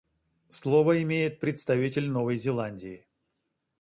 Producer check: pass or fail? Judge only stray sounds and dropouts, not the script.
pass